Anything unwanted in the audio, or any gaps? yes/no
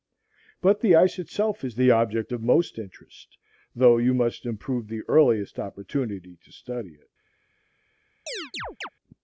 yes